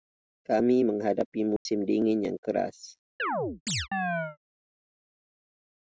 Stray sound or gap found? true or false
true